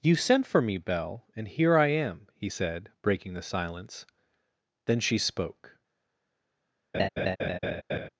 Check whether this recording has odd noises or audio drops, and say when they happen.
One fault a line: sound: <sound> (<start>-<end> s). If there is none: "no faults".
sound: laugh (6.9-8.1 s)